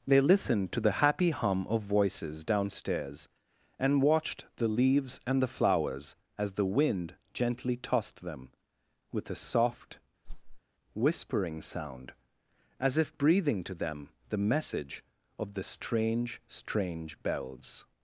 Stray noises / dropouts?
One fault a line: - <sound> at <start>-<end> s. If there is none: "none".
- whoosh at 10.2-10.6 s